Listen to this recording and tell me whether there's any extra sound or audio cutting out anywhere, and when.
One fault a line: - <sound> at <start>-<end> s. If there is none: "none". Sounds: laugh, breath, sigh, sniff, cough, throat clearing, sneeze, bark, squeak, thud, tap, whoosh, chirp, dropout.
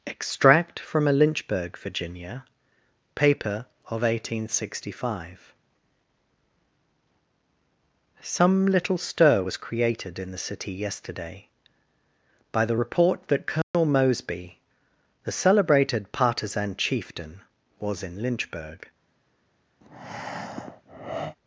- dropout at 13.6-13.7 s
- breath at 19.8-21.4 s